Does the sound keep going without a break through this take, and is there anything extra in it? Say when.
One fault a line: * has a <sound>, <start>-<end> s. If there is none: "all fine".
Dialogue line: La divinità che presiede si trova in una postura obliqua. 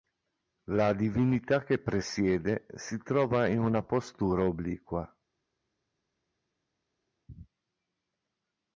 all fine